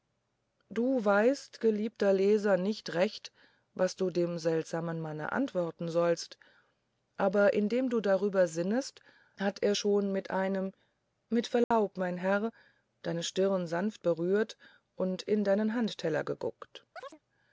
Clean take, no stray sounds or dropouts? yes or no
no